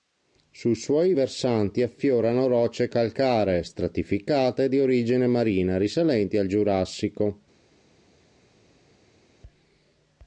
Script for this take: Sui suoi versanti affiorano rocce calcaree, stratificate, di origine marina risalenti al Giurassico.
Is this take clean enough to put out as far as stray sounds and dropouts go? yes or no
yes